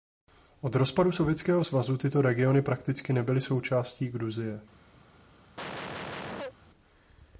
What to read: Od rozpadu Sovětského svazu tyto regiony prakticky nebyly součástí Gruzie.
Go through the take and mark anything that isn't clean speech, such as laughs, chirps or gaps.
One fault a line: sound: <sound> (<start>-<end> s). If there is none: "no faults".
sound: cough (5.6-6.5 s)